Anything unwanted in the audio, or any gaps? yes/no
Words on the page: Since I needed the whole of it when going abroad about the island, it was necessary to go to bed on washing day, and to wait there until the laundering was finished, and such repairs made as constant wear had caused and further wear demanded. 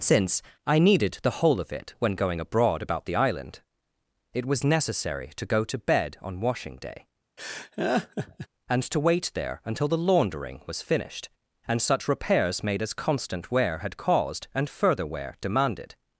yes